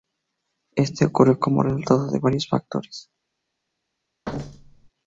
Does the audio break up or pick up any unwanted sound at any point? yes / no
yes